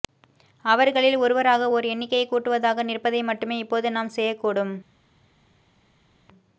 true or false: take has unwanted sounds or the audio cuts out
false